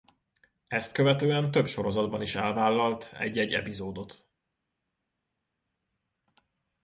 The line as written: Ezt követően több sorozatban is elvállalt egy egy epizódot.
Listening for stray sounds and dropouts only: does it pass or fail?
pass